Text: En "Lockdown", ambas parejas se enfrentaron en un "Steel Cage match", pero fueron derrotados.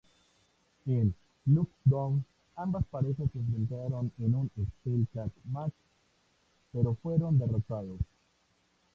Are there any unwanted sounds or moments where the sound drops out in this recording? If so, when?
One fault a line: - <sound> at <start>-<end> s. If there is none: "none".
none